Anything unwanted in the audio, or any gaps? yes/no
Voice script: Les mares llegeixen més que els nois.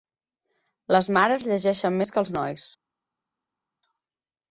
no